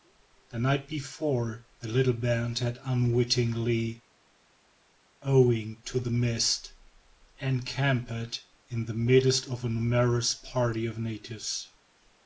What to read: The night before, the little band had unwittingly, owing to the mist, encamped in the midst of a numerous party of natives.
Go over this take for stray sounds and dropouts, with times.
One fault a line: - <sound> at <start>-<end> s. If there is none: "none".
none